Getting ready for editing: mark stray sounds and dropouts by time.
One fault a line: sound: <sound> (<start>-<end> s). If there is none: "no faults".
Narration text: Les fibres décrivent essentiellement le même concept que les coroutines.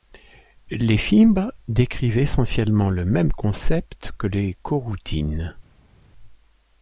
no faults